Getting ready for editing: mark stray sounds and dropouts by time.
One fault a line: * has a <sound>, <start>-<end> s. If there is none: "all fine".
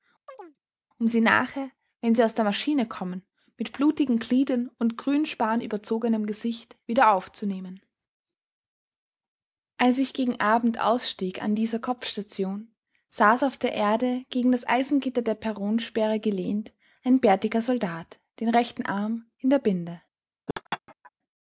* has a chirp, 0.3-0.6 s
* has a laugh, 20.5-21.1 s